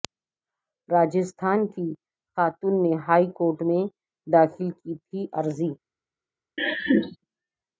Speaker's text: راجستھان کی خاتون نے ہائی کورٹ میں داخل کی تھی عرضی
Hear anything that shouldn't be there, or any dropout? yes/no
yes